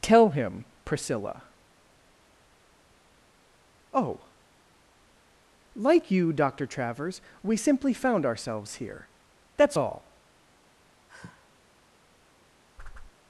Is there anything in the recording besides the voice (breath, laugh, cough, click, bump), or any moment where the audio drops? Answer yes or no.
yes